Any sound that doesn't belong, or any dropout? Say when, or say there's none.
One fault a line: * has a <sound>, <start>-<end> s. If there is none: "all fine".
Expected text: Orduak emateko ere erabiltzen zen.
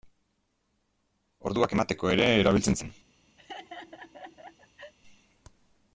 * has a laugh, 3.4-4.9 s